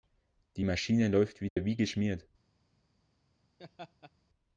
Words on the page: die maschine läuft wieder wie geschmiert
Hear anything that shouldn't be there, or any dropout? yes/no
yes